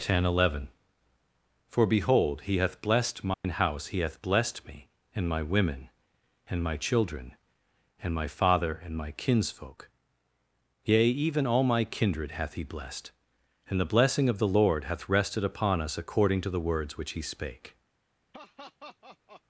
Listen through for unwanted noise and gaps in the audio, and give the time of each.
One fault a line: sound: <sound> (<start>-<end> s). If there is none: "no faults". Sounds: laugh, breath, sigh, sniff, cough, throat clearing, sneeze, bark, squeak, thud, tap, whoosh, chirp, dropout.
sound: dropout (3.3-3.4 s)
sound: laugh (18.3-19.4 s)